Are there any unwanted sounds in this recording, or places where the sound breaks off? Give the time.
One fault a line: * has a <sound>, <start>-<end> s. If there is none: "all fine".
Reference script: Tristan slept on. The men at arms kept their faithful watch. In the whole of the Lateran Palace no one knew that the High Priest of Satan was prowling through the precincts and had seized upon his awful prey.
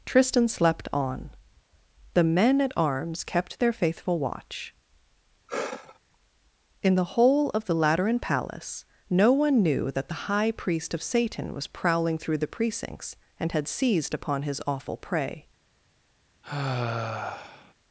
* has a sigh, 5.5-6.0 s
* has a sigh, 16.4-17.7 s